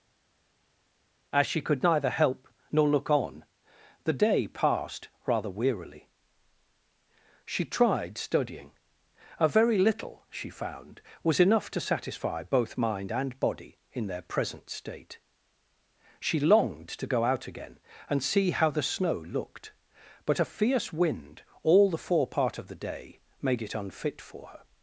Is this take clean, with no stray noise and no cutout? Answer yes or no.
yes